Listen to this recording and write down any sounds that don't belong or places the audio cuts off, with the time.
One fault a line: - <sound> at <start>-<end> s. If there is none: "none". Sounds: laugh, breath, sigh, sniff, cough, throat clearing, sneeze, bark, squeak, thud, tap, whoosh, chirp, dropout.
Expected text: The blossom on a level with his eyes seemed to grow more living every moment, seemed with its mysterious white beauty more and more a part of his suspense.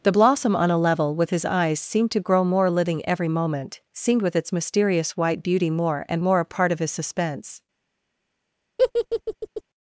- laugh at 8.8-9.6 s